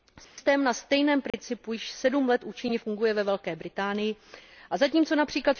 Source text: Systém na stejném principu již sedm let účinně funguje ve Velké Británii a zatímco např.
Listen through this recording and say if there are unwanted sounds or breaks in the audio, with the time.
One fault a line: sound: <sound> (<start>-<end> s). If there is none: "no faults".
sound: dropout (0.2-0.4 s)
sound: dropout (1.3-1.3 s)